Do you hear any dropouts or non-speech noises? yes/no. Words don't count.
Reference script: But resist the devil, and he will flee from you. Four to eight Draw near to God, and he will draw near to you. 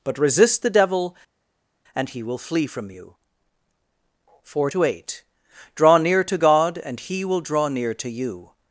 no